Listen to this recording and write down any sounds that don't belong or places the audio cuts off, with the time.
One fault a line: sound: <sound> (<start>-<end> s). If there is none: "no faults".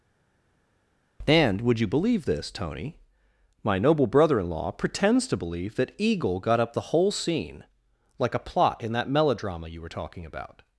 no faults